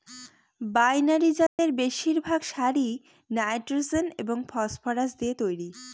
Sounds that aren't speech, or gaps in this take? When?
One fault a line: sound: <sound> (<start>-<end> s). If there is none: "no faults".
sound: dropout (1.5-1.6 s)